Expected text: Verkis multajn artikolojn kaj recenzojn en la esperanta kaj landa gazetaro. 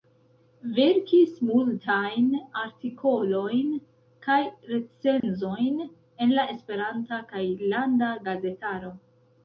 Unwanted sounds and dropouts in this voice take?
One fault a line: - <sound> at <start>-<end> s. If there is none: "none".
- dropout at 5.2-5.2 s